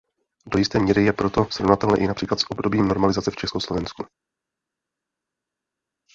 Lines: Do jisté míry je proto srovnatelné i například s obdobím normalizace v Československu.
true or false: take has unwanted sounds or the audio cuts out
false